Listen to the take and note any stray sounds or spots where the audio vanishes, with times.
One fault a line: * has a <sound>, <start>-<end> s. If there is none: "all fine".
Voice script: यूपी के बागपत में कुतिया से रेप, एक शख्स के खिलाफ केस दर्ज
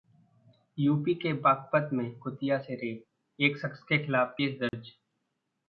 * has a dropout, 4.7-4.7 s